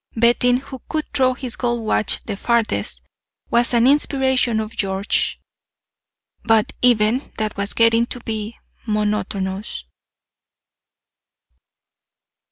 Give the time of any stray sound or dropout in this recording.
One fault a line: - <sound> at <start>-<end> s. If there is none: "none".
none